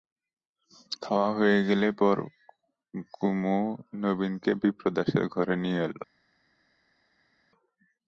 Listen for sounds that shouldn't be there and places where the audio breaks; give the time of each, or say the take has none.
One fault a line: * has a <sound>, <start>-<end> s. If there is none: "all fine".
all fine